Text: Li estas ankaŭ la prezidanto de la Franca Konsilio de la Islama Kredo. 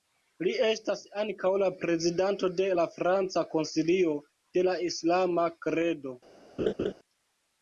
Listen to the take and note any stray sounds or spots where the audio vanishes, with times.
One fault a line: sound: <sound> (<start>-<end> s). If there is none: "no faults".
sound: laugh (6.6-6.9 s)